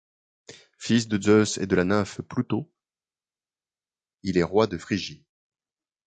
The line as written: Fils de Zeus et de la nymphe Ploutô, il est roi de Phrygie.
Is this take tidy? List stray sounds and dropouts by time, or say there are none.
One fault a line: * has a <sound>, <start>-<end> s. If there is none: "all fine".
all fine